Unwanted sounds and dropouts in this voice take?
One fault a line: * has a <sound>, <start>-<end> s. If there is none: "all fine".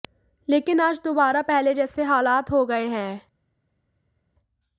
all fine